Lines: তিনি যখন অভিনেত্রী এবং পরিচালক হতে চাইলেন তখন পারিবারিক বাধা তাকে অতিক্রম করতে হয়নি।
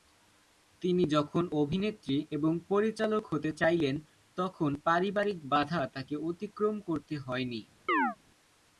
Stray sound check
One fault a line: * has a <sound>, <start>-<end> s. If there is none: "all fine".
* has a chirp, 7.9-8.2 s